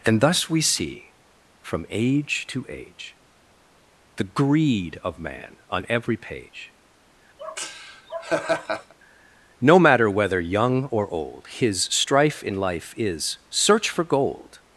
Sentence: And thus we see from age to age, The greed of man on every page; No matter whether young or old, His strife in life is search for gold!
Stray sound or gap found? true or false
true